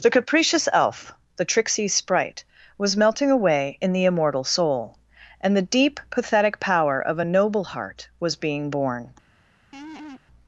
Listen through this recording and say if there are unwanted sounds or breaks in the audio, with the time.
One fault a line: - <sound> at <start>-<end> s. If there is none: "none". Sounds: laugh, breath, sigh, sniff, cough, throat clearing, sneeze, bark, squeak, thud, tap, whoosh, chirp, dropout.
- laugh at 9.7-10.2 s